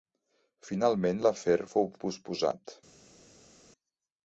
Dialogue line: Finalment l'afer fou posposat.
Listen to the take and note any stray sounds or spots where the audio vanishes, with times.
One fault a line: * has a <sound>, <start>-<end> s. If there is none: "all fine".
all fine